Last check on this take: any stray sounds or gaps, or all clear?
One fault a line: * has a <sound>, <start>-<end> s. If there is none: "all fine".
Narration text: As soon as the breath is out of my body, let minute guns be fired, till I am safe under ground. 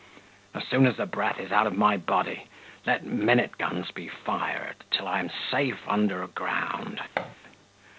* has a thud, 7.2-7.4 s